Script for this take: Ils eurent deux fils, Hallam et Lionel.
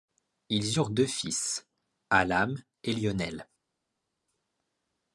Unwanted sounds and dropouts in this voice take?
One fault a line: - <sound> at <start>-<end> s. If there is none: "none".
none